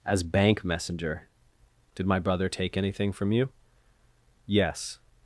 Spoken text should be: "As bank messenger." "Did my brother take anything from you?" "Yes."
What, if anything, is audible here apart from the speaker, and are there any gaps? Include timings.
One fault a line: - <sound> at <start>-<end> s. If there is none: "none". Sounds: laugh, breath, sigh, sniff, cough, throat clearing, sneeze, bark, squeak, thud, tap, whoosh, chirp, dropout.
none